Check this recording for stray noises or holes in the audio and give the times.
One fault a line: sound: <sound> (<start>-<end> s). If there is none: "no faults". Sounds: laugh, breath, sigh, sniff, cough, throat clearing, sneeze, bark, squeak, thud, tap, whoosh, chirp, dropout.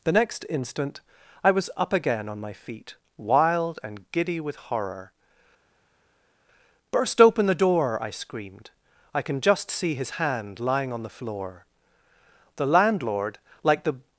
no faults